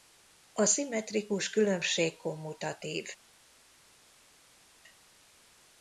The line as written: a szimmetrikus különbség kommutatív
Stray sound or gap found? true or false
false